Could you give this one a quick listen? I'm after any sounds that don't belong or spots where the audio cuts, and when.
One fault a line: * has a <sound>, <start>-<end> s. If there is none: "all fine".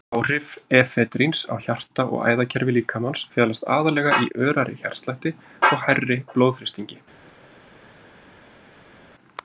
all fine